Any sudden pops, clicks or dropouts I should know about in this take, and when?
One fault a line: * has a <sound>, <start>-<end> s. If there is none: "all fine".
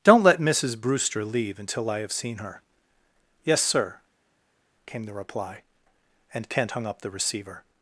all fine